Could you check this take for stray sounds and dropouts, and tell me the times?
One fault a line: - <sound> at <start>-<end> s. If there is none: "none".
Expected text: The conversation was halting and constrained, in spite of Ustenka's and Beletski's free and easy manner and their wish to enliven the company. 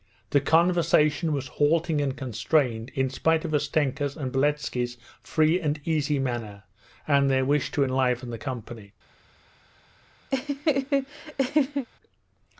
- laugh at 10.3-11.9 s